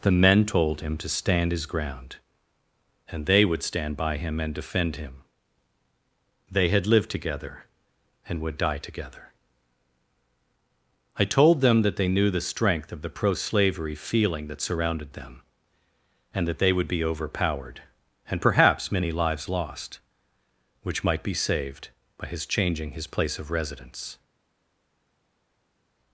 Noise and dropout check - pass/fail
pass